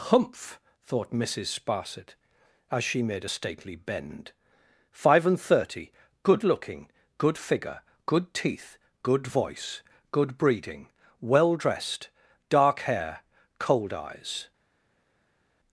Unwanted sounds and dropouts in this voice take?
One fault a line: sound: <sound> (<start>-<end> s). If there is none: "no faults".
no faults